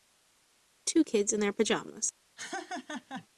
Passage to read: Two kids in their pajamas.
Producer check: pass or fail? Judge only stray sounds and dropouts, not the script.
fail